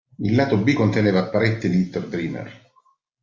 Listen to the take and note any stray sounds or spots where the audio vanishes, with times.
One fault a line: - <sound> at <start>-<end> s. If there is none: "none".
none